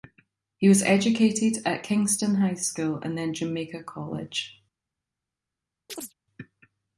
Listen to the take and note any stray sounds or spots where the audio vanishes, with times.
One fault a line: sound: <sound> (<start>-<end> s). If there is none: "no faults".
sound: chirp (5.9-6.1 s)